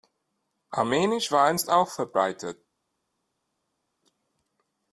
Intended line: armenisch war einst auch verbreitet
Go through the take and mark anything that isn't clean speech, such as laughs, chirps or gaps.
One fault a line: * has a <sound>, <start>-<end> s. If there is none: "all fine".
all fine